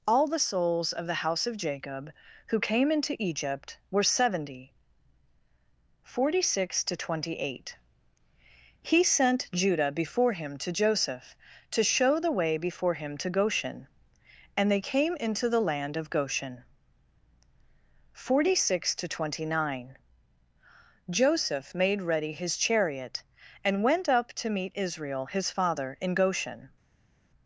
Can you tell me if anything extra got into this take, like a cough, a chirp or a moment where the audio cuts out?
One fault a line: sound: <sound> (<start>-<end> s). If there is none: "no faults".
no faults